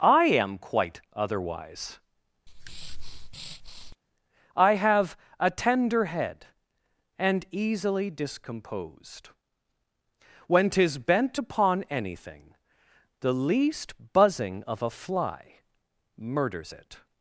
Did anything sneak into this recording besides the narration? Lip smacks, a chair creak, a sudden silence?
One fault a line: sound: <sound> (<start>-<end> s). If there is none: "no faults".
sound: breath (2.5-4.0 s)